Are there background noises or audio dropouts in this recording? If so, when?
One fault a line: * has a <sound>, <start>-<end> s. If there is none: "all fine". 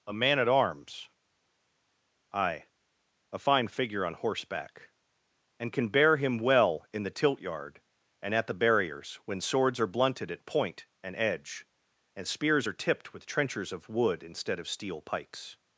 all fine